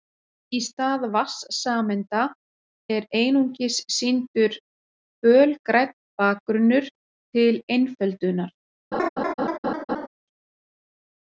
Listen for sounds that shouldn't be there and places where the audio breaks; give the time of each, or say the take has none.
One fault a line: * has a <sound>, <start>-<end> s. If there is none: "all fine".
* has a laugh, 8.9-10.1 s